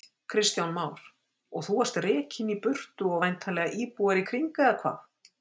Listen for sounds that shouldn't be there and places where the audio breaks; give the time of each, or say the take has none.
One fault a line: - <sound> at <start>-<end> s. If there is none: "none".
none